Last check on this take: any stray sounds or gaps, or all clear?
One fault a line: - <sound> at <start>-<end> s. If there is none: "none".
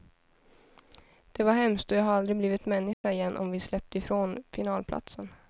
- dropout at 2.9-3.0 s